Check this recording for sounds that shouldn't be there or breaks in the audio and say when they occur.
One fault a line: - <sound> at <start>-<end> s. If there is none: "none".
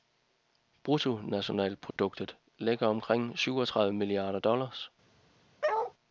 - dropout at 1.9-2.0 s
- bark at 5.6-5.9 s